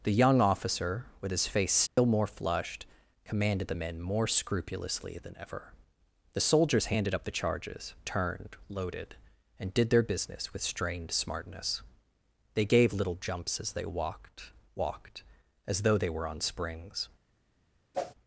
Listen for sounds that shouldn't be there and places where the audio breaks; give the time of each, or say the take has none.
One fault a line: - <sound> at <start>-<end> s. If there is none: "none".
- dropout at 1.9-2.0 s
- whoosh at 17.9-18.1 s